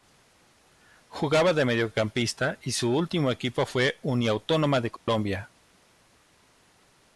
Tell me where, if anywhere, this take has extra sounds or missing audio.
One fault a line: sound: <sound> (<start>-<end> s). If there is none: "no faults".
sound: dropout (5.0-5.1 s)